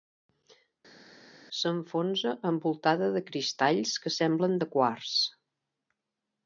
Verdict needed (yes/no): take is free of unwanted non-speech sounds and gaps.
yes